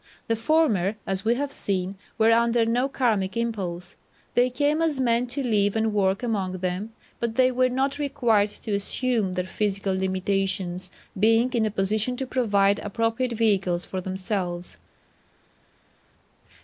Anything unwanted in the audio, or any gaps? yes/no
no